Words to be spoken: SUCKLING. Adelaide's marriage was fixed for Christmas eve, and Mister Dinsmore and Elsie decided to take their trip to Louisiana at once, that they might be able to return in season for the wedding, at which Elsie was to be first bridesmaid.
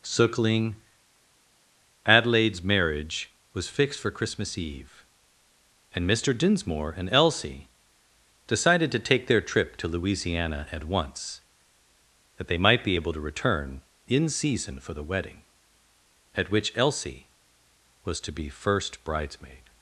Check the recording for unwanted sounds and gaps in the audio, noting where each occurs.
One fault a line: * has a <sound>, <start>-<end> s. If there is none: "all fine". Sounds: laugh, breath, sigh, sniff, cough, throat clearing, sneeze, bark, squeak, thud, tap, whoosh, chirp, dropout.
all fine